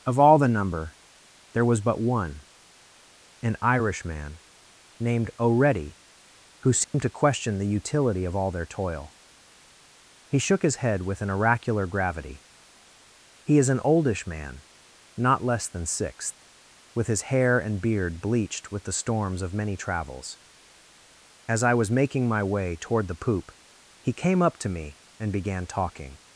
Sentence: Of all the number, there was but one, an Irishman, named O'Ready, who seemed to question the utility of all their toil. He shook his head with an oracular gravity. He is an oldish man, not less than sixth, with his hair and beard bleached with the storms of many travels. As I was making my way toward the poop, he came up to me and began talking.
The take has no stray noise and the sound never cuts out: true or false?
false